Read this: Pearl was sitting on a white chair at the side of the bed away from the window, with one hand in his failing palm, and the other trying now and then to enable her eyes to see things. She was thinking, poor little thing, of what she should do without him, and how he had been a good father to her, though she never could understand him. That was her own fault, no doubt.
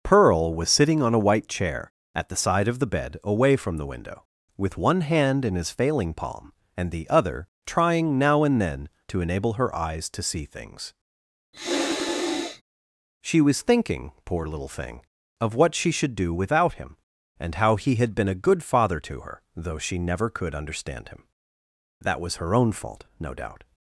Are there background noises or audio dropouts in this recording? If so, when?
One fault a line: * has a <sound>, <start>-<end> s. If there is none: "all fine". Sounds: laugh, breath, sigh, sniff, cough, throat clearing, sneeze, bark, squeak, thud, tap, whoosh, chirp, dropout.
* has a sniff, 11.5-12.6 s